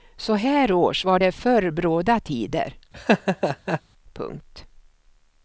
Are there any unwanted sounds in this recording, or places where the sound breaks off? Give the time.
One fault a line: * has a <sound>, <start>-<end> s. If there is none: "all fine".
* has a laugh, 2.9-3.8 s